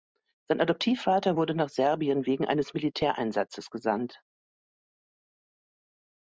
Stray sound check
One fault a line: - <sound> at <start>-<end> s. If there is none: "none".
none